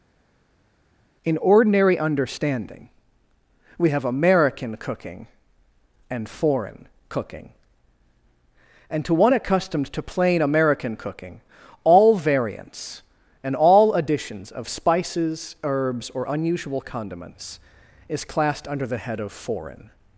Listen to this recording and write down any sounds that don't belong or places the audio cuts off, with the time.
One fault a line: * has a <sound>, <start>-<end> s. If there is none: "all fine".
all fine